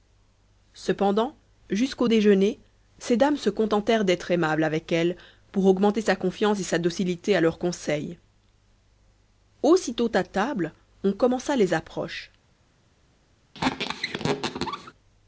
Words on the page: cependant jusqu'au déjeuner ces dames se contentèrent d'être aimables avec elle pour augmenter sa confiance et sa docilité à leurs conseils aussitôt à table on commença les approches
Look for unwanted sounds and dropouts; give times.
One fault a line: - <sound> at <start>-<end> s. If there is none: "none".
- squeak at 13.5-14.9 s